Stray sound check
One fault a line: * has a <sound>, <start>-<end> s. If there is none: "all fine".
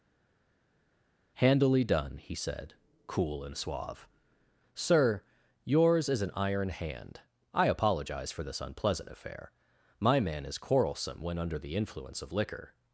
all fine